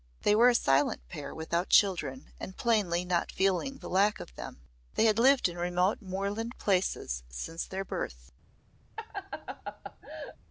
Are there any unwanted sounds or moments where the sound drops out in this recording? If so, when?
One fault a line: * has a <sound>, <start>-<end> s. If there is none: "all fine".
* has a laugh, 9.0-10.4 s